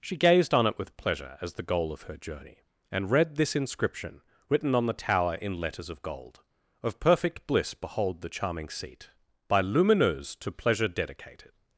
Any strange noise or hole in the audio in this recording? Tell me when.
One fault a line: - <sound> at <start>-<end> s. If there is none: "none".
none